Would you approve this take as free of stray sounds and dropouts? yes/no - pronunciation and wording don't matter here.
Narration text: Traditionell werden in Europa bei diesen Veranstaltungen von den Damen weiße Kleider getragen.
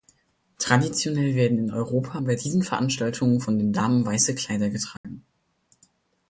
no